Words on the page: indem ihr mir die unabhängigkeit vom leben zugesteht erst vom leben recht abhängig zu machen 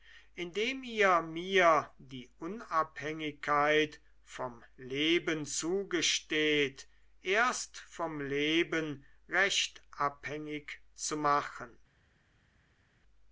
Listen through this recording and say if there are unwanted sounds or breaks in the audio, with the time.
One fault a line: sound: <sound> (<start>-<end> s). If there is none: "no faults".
no faults